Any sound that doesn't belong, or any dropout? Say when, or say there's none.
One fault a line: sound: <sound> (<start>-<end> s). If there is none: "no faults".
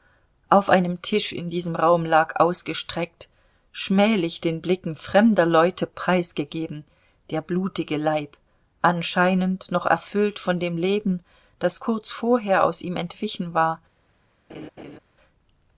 sound: laugh (14.5-15.0 s)